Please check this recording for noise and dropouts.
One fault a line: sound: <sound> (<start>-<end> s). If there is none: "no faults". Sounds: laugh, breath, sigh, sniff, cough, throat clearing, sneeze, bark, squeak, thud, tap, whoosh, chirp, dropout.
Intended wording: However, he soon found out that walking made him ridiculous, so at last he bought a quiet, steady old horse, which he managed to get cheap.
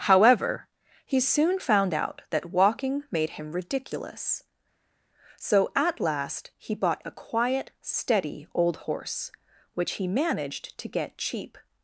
no faults